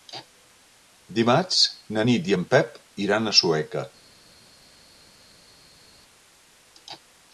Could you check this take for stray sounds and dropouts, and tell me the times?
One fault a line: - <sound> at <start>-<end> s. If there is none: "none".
none